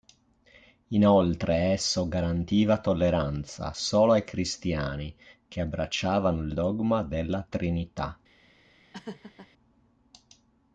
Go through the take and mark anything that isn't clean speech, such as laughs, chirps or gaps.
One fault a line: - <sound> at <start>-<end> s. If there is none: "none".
- laugh at 8.9-9.5 s